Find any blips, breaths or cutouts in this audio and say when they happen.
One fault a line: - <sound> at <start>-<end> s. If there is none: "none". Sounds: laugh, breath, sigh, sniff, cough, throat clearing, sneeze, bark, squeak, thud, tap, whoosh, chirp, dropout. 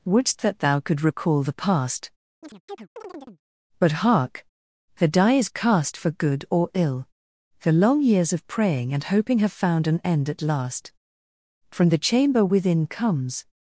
- chirp at 2.4-3.4 s